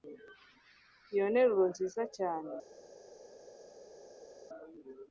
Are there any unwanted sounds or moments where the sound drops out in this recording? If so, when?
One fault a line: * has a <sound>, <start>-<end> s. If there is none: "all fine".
all fine